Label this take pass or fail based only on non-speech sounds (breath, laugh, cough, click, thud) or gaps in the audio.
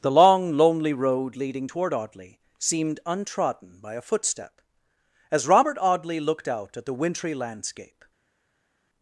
pass